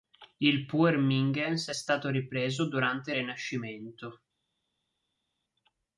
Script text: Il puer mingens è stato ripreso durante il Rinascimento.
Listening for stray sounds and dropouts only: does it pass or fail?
pass